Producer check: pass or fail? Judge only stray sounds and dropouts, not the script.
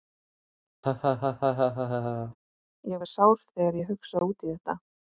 fail